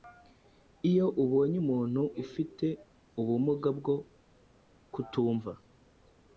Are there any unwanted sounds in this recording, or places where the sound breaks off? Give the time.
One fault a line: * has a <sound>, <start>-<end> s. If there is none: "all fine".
all fine